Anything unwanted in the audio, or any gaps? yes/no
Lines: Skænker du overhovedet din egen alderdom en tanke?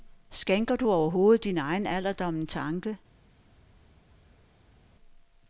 no